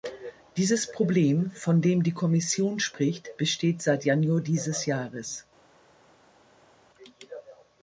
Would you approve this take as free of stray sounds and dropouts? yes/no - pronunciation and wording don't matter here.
yes